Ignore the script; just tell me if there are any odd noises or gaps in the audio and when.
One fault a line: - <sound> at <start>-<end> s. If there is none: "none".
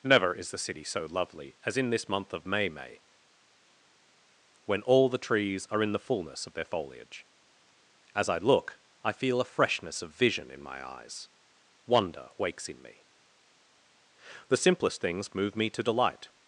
none